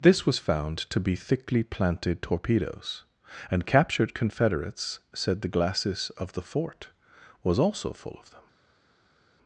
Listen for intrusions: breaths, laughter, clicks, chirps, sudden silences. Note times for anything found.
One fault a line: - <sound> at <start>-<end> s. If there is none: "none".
none